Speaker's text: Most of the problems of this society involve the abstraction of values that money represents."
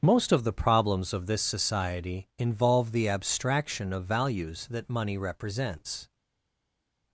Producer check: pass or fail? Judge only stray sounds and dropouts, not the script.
pass